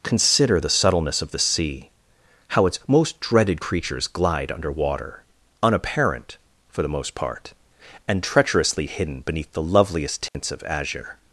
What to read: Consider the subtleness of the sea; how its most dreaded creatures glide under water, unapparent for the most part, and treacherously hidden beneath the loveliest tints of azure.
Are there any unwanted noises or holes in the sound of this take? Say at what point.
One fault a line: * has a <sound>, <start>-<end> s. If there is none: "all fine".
* has a dropout, 10.3-10.3 s